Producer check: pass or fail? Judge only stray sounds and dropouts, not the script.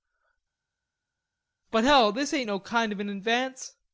pass